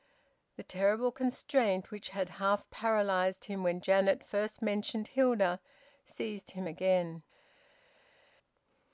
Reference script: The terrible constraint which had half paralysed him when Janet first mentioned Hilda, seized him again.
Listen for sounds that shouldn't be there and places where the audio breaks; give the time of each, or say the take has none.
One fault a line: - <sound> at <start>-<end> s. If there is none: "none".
none